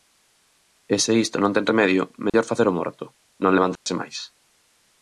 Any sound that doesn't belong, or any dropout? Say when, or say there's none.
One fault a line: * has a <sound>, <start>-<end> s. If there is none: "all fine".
* has a dropout, 2.3-2.3 s
* has a dropout, 3.8-3.9 s